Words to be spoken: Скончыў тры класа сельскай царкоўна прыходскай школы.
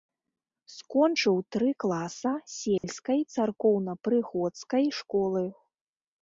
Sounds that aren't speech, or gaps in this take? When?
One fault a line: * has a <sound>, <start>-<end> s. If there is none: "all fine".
* has a dropout, 2.8-2.8 s